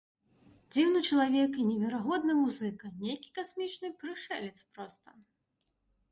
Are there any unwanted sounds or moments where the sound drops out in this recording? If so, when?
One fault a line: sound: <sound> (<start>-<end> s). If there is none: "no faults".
no faults